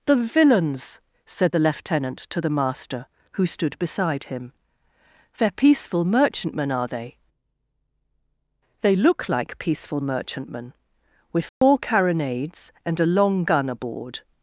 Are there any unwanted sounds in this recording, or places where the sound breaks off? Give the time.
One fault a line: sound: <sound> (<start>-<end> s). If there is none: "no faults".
sound: dropout (11.5-11.6 s)